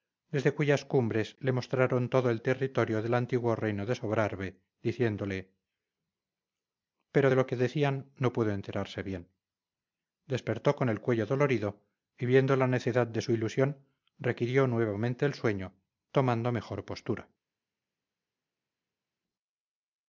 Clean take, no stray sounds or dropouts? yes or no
yes